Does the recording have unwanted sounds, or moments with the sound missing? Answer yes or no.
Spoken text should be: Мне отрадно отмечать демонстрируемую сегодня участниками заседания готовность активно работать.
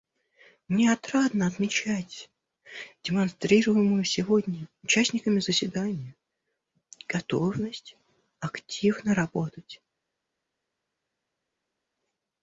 no